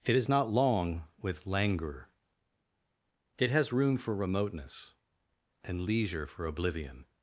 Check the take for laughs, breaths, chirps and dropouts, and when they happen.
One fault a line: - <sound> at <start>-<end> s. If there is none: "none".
none